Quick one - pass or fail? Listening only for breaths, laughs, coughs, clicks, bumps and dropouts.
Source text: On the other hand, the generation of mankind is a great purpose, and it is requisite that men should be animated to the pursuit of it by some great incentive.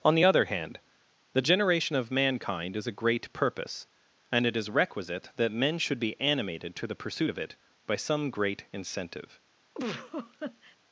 fail